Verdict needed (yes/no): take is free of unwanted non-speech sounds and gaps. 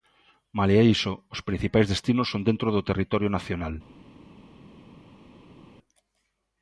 yes